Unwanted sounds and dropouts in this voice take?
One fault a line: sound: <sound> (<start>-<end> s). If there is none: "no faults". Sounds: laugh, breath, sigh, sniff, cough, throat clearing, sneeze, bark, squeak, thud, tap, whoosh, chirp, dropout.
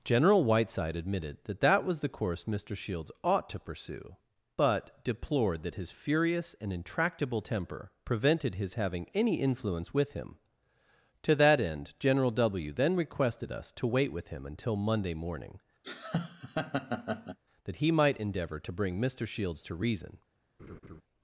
sound: laugh (15.8-17.4 s)
sound: laugh (20.6-21.0 s)